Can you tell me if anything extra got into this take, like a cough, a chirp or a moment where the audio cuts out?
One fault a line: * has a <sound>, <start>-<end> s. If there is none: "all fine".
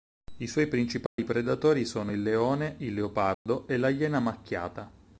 * has a dropout, 1.1-1.2 s
* has a dropout, 3.3-3.5 s